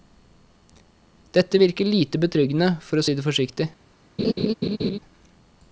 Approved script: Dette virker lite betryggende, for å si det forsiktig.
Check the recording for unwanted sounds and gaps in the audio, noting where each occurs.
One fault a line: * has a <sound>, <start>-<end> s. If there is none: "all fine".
* has a laugh, 4.2-5.0 s